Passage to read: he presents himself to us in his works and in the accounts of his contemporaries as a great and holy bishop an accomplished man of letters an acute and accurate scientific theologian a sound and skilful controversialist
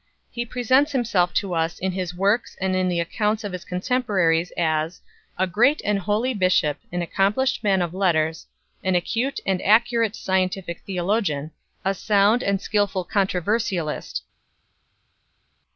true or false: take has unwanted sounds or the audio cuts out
false